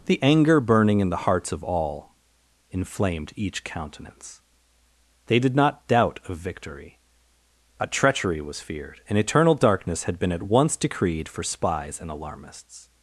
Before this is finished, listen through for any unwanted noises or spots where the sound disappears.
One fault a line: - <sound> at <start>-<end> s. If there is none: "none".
none